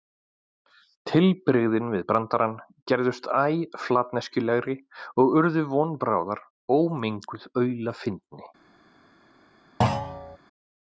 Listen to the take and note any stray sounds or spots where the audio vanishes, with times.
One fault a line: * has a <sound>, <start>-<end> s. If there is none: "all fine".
* has a thud, 9.8-10.4 s